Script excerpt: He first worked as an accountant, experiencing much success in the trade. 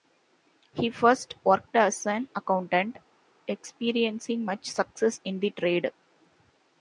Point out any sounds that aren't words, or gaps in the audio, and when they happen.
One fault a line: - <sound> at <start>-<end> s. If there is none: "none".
none